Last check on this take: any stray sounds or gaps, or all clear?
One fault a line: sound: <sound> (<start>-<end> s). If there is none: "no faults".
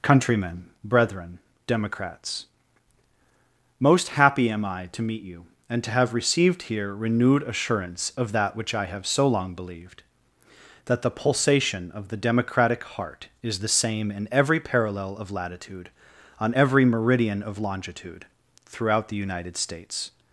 no faults